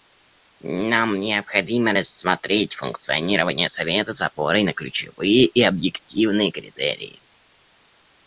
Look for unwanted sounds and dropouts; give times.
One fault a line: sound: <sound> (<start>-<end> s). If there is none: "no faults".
no faults